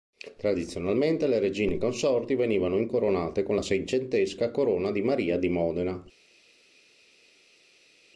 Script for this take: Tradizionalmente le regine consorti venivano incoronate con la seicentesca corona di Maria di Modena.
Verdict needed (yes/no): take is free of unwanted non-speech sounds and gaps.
yes